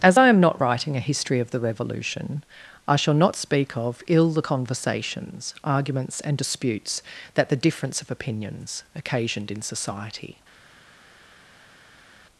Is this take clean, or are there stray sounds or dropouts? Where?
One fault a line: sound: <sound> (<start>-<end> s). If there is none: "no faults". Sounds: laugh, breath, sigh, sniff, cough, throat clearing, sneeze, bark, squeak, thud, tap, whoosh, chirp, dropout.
no faults